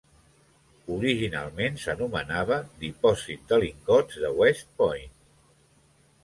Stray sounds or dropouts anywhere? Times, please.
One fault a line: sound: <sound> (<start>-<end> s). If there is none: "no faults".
no faults